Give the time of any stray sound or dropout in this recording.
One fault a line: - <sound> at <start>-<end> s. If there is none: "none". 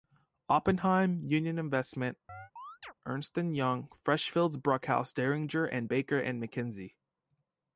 - chirp at 2.3-2.9 s